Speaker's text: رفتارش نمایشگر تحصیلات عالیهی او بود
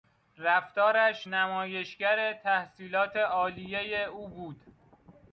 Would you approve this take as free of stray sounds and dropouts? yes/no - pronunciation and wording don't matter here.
yes